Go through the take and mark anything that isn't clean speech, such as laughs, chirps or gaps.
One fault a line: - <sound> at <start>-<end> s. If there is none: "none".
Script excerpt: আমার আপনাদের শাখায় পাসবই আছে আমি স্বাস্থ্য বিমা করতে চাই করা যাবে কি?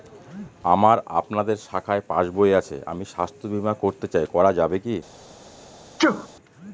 - sneeze at 6.0-6.3 s